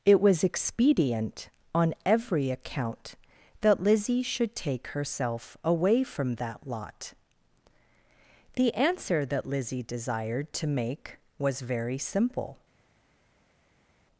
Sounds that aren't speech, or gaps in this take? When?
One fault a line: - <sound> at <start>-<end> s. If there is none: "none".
none